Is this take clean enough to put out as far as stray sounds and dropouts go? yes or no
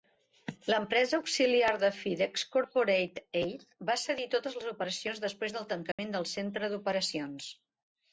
no